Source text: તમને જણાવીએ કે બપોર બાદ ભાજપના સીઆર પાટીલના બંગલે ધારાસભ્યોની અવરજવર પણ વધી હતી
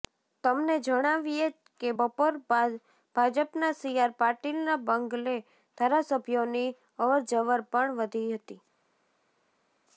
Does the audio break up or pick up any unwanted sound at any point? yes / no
no